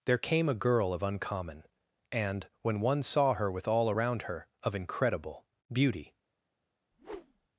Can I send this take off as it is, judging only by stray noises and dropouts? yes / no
no